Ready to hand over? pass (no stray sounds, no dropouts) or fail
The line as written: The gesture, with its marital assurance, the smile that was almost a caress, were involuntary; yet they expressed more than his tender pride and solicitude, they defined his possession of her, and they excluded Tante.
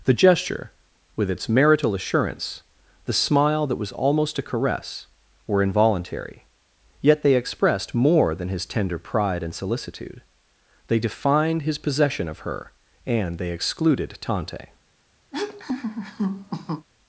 fail